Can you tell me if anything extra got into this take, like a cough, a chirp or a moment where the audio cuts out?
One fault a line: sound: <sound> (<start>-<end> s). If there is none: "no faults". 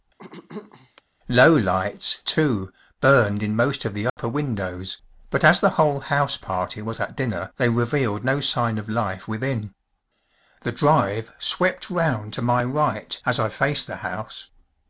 sound: throat clearing (0.2-1.0 s)
sound: dropout (4.1-4.2 s)